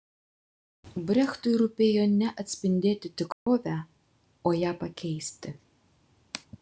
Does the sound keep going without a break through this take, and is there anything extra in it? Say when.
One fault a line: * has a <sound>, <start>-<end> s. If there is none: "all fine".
* has a dropout, 3.3-3.5 s